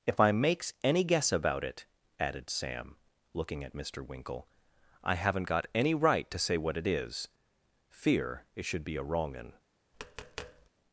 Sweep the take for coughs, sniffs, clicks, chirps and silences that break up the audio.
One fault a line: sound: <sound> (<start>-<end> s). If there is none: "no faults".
sound: tap (9.9-10.7 s)